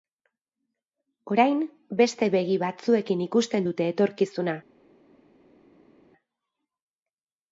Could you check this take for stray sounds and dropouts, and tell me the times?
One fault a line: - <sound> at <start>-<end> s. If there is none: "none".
none